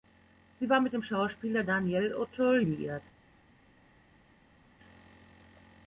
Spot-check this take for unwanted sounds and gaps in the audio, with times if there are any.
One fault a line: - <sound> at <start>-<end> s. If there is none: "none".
none